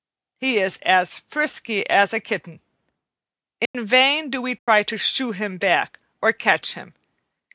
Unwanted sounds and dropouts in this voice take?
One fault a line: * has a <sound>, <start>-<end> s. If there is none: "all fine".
* has a dropout, 3.7-3.7 s
* has a dropout, 4.6-4.7 s